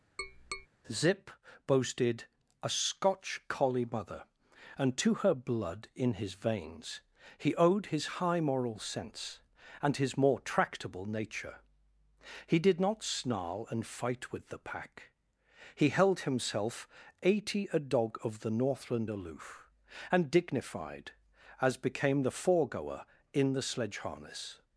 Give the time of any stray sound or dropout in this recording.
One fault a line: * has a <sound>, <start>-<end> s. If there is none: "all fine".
* has a tap, 0.2-0.7 s